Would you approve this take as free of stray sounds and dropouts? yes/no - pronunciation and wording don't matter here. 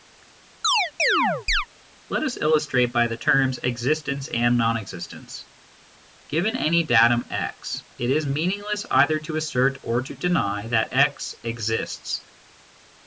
no